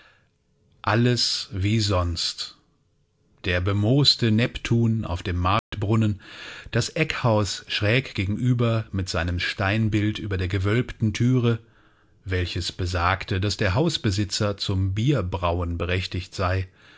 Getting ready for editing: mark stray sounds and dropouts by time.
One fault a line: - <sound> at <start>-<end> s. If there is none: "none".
- dropout at 5.6-5.7 s